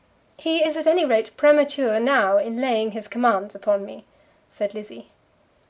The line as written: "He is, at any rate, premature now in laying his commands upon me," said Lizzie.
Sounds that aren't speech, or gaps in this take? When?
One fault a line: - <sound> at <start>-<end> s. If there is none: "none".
none